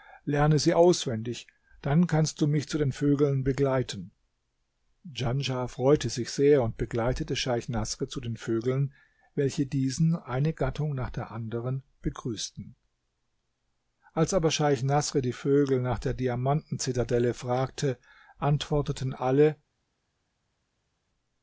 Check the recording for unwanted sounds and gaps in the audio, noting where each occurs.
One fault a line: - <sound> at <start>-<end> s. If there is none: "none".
none